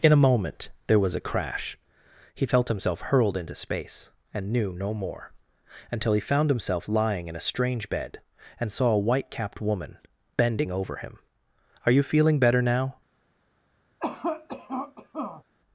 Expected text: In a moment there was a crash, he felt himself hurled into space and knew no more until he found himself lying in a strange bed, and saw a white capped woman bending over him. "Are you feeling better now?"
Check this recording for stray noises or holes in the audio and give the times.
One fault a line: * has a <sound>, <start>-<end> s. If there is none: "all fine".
* has a cough, 14.0-15.4 s